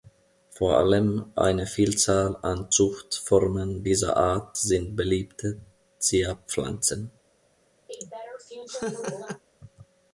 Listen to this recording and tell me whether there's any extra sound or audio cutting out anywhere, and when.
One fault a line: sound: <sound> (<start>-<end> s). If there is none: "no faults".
sound: laugh (7.9-9.4 s)